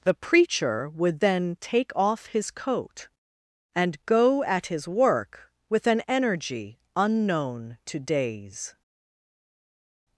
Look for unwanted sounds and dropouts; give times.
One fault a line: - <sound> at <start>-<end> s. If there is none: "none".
none